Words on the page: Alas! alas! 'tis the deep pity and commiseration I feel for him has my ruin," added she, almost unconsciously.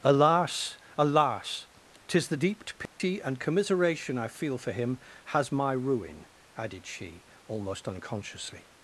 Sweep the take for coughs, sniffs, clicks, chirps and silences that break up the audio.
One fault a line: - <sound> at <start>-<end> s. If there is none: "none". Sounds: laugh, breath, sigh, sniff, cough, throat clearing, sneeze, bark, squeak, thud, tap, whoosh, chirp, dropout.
- dropout at 2.9-3.0 s